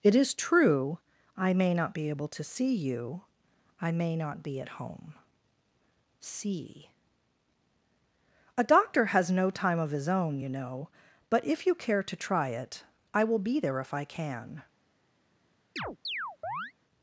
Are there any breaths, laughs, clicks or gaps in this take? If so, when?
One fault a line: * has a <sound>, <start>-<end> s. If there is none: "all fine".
* has a chirp, 15.8-16.7 s